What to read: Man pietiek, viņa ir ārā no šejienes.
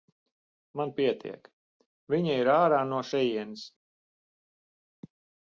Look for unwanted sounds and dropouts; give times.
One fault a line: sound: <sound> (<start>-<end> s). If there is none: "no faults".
no faults